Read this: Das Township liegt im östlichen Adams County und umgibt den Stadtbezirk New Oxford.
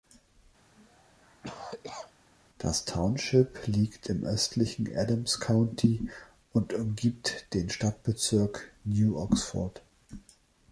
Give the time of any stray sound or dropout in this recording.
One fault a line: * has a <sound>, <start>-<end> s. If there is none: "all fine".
* has a cough, 0.8-2.1 s